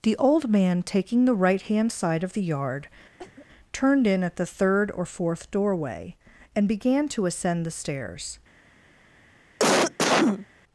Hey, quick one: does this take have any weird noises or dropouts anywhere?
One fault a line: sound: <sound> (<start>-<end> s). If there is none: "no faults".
sound: cough (3.2-3.5 s)
sound: cough (9.6-10.5 s)